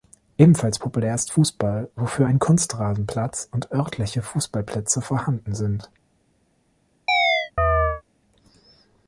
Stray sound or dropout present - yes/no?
yes